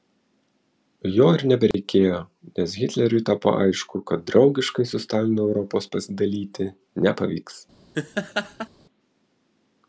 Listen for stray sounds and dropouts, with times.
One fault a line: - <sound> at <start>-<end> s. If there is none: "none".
- dropout at 1.7-1.7 s
- laugh at 7.9-8.7 s